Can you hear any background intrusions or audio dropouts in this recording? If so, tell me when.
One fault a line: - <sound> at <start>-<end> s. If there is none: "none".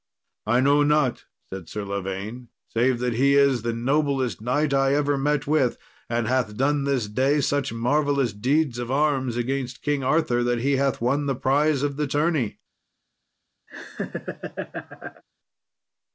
- laugh at 13.7-15.2 s